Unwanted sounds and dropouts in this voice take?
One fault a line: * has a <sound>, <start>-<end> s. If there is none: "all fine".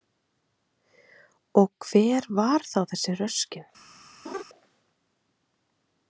* has a laugh, 4.3-4.4 s